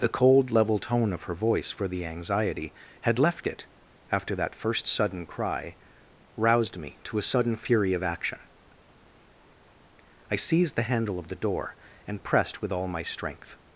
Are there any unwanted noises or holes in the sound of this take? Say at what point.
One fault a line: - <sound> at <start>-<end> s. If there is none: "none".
none